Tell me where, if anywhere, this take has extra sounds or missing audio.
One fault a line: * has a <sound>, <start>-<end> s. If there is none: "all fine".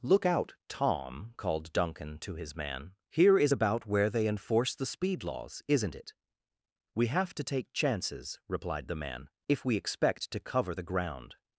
all fine